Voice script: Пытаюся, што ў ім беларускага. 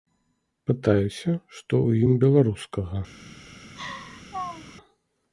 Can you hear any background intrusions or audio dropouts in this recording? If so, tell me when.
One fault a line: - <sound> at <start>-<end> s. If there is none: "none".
- laugh at 3.8-4.8 s